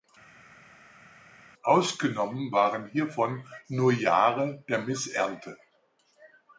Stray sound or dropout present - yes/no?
no